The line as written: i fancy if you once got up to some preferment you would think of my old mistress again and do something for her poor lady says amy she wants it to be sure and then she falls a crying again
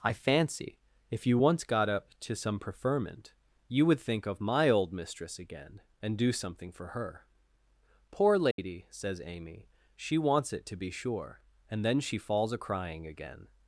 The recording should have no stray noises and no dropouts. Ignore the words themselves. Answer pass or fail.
fail